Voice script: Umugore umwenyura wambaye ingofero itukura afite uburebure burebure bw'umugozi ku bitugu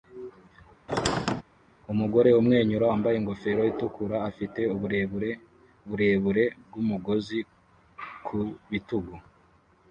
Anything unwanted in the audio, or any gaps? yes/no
yes